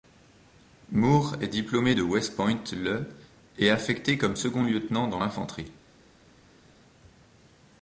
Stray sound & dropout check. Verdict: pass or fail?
pass